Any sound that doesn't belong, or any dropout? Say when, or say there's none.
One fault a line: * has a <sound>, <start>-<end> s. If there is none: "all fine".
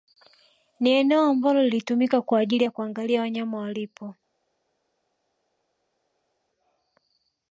all fine